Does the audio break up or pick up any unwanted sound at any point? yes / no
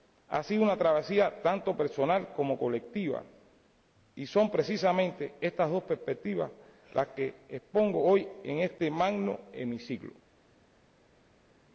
no